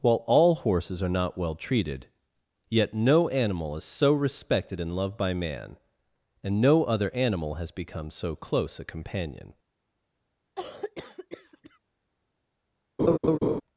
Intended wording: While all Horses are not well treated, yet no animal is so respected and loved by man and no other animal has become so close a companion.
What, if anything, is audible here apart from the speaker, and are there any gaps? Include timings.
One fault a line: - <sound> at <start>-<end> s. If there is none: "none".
- cough at 10.6-11.8 s
- laugh at 13.0-13.6 s